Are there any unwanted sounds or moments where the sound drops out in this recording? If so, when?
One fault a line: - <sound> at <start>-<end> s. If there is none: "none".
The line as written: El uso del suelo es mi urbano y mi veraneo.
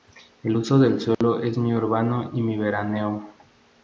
- dropout at 1.1-1.2 s